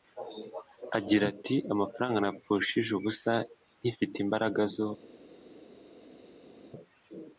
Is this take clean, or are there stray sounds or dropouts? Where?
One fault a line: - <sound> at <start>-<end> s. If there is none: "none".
none